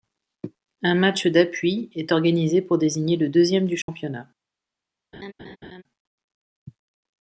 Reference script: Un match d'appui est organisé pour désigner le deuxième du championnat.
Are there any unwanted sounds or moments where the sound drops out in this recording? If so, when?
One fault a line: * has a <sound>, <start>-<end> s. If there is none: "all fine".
* has a dropout, 3.8-3.9 s
* has a laugh, 5.1-5.8 s